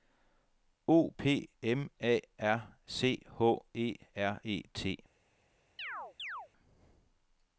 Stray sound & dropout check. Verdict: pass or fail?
fail